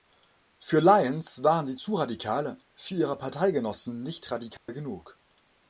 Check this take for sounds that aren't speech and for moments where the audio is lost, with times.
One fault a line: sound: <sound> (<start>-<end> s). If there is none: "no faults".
sound: dropout (4.6-4.7 s)